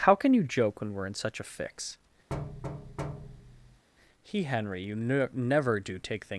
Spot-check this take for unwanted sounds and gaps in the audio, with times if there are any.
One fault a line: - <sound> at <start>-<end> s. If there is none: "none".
- thud at 2.3-3.8 s